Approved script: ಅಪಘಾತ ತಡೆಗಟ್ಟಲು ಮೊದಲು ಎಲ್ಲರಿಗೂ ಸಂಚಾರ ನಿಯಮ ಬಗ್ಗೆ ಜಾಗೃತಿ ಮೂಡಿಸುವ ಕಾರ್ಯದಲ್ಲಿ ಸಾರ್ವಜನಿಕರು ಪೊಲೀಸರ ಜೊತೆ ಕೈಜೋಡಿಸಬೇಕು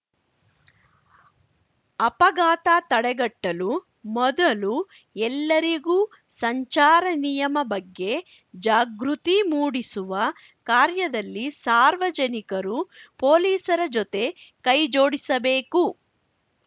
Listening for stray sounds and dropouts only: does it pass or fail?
pass